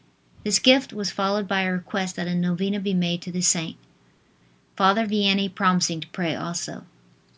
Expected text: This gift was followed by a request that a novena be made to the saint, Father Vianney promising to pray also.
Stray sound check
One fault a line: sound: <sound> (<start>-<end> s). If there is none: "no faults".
no faults